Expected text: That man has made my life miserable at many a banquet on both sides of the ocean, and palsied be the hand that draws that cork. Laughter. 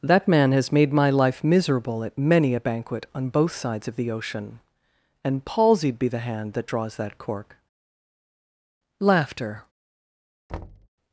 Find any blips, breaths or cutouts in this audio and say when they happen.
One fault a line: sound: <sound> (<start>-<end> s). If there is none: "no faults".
sound: thud (10.5-10.9 s)